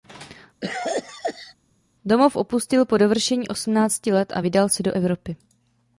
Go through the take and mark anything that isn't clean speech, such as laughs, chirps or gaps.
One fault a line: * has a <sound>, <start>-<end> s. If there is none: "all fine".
* has a cough, 0.6-1.5 s